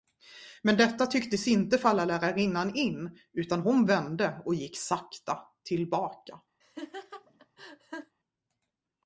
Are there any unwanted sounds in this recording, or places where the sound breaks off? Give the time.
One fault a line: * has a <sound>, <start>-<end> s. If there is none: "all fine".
* has a laugh, 6.6-8.2 s